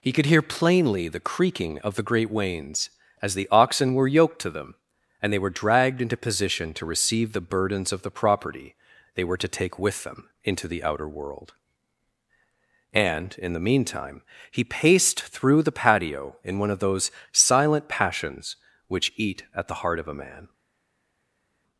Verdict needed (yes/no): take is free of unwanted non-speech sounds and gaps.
yes